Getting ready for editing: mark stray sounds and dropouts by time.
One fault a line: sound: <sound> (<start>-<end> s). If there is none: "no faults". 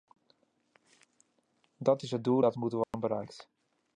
sound: dropout (2.8-2.9 s)